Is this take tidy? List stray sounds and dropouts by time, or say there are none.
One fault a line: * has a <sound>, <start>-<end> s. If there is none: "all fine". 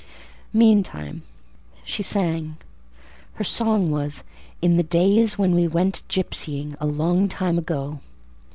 all fine